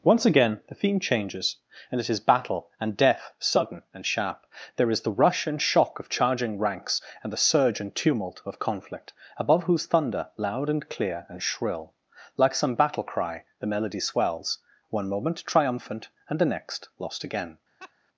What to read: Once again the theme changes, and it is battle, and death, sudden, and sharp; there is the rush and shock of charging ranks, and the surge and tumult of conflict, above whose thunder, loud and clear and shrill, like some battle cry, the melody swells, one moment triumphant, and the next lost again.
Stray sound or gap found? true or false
true